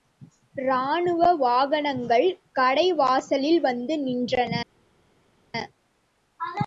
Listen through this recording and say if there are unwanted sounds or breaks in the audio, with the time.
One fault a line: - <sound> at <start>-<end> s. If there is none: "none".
none